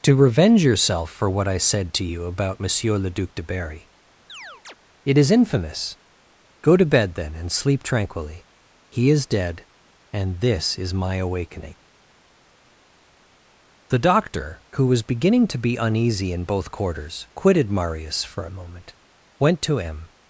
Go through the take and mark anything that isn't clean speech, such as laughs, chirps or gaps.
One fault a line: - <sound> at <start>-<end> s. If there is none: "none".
- chirp at 4.3-4.8 s